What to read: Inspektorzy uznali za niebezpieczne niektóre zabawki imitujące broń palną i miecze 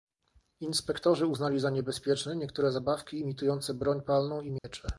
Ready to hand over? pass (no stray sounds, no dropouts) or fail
fail